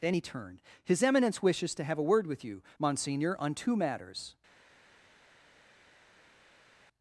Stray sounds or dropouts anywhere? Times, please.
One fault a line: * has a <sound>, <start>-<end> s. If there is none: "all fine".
all fine